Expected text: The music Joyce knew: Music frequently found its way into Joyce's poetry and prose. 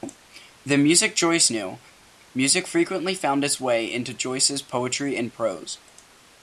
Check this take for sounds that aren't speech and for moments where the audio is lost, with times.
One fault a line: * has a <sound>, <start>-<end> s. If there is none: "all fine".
all fine